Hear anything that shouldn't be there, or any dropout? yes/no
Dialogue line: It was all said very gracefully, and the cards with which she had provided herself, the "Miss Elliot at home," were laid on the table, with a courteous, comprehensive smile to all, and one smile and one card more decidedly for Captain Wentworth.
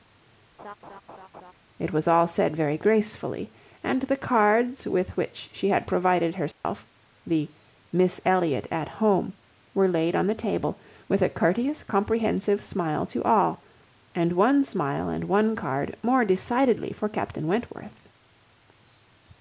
yes